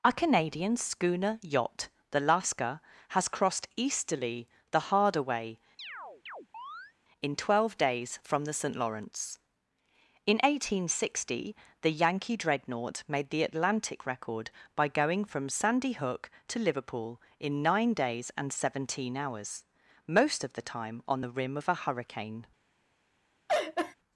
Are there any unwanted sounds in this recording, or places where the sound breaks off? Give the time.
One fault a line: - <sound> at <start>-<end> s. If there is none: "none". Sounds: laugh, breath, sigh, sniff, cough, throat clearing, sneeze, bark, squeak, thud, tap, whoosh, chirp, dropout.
- chirp at 5.8-6.9 s
- laugh at 23.5-24.0 s